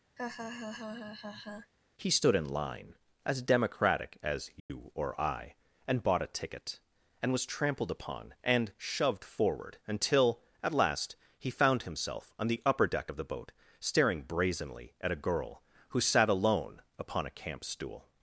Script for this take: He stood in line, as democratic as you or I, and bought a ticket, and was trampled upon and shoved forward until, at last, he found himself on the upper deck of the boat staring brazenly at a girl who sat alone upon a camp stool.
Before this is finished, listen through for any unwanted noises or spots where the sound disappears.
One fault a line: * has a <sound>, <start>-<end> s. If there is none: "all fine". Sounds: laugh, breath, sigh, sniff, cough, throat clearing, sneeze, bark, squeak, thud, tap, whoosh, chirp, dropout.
* has a laugh, 0.2-1.7 s
* has a dropout, 4.6-4.7 s